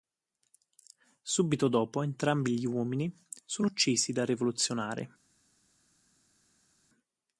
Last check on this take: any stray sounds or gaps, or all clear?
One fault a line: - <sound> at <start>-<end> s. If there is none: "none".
none